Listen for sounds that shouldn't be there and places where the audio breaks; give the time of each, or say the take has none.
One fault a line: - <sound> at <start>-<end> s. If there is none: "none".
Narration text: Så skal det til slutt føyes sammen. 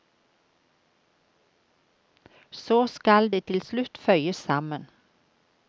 none